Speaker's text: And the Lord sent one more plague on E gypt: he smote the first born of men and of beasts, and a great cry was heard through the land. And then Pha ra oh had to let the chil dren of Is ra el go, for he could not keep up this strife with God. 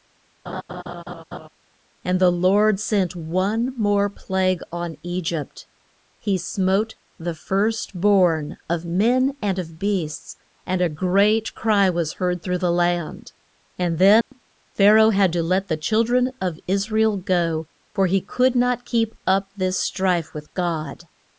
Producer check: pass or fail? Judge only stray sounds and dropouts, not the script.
fail